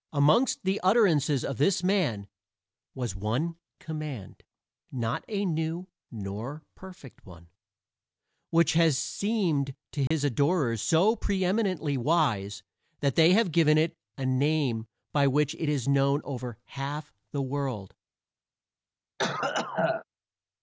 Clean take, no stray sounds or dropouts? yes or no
no